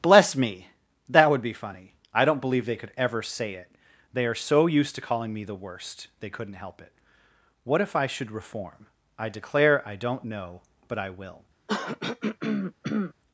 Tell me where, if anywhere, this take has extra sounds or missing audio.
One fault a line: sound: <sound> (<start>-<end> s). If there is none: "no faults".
sound: throat clearing (11.7-13.1 s)